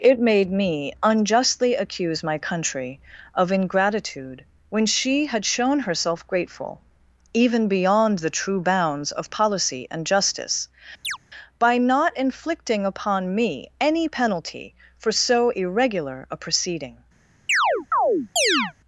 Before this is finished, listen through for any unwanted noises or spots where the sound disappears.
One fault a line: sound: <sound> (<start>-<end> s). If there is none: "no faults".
sound: chirp (11.0-11.2 s)
sound: chirp (17.5-18.7 s)